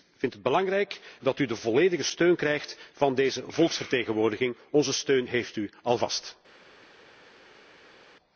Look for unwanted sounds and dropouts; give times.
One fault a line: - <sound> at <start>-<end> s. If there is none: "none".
none